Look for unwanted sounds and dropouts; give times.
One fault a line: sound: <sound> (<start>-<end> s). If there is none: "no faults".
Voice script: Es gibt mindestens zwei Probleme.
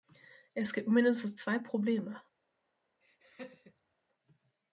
sound: laugh (3.0-4.0 s)